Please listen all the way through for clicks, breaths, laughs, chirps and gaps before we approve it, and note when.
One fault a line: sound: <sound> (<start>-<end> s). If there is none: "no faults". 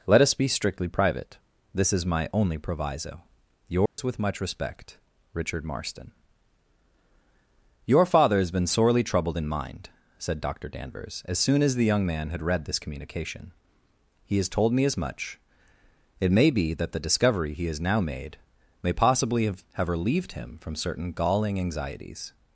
sound: dropout (3.9-4.0 s)